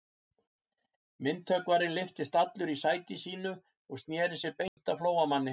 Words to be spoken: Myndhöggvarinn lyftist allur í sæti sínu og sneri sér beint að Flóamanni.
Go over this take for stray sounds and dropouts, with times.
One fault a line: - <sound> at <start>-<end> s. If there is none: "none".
- dropout at 4.7-4.8 s